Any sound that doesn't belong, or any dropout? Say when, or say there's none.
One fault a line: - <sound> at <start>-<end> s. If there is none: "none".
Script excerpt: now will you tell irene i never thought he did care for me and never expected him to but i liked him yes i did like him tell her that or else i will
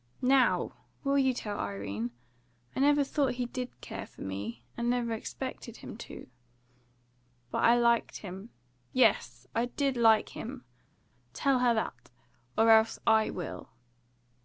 none